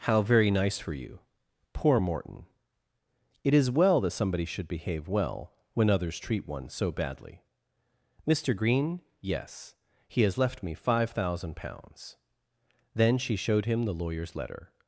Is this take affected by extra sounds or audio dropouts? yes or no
no